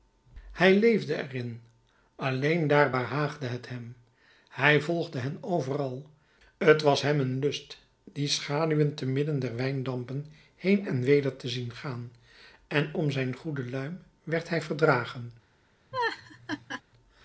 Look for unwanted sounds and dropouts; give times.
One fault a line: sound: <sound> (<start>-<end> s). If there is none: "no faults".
sound: laugh (15.9-16.8 s)